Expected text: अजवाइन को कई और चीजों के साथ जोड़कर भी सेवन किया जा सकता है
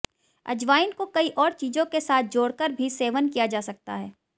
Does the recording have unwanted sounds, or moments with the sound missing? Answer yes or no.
no